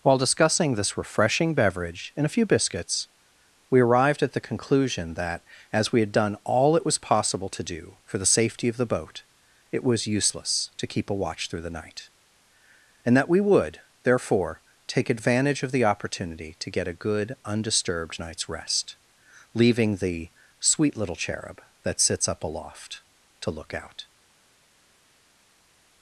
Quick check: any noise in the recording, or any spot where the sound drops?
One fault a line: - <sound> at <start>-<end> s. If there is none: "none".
none